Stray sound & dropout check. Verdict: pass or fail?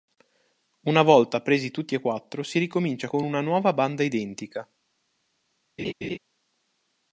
fail